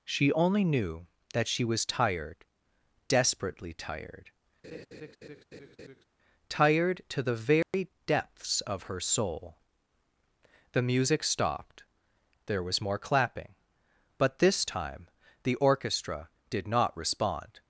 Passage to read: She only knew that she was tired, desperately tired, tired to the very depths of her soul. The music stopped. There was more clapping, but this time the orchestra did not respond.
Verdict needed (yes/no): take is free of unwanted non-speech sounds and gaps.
no